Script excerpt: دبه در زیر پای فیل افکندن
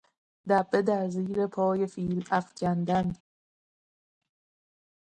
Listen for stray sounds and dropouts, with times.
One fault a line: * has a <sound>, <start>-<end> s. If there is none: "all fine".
all fine